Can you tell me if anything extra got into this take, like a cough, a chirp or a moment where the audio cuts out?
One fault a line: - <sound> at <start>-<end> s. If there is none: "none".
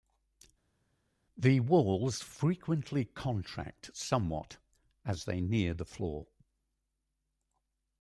none